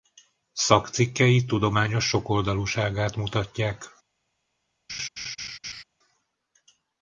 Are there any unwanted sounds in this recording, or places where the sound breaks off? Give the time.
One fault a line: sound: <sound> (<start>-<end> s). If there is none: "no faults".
sound: laugh (4.9-5.8 s)